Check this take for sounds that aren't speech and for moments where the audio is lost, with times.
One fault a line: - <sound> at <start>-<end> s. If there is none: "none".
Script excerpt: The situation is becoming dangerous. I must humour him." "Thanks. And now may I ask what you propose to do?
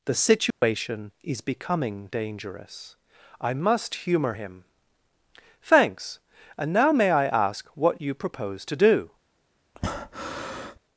- dropout at 0.5-0.6 s
- breath at 9.7-10.8 s